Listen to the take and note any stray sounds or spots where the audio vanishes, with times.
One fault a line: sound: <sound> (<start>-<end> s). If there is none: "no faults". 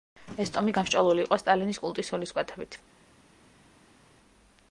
no faults